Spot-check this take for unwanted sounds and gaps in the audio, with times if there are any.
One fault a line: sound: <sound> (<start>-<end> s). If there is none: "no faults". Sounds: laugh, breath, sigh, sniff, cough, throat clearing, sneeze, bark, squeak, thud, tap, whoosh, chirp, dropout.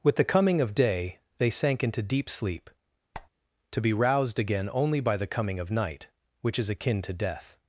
sound: squeak (3.1-3.3 s)